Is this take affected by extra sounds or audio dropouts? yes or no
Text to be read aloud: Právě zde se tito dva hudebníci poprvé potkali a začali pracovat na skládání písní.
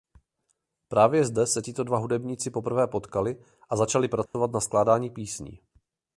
yes